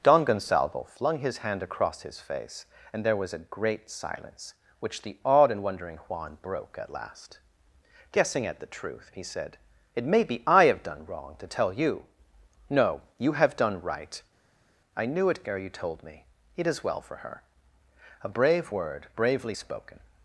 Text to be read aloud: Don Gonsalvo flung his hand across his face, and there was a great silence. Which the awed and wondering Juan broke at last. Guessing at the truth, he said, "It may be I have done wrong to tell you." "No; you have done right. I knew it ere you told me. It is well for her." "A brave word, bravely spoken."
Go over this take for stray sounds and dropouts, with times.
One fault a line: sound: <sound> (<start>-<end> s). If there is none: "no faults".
no faults